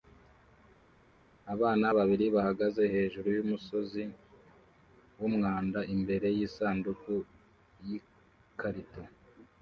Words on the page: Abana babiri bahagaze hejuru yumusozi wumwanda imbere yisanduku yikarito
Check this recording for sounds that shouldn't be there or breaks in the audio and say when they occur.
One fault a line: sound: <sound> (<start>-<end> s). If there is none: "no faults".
no faults